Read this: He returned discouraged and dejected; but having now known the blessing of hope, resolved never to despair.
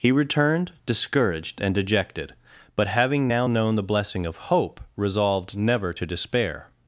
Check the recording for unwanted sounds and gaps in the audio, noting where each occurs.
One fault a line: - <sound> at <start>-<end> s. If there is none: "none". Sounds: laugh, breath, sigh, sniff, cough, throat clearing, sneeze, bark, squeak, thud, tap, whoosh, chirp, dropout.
none